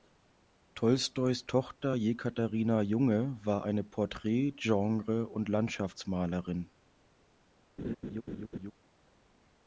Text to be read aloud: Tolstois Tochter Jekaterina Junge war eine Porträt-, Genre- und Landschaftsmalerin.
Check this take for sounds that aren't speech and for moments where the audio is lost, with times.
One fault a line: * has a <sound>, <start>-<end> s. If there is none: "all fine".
* has a laugh, 7.8-8.7 s